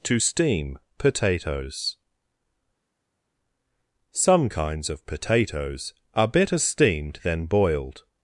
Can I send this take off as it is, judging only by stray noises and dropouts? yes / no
yes